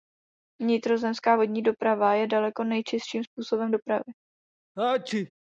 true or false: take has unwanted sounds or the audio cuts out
true